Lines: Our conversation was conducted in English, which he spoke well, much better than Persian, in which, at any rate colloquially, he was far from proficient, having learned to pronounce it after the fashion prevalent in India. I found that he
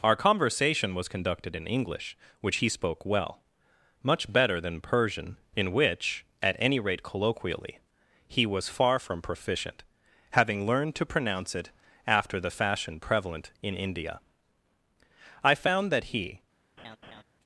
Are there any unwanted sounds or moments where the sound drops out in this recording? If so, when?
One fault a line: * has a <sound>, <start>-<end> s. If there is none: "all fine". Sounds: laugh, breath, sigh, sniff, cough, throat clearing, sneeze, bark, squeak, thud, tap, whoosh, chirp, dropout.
* has a laugh, 16.8-17.2 s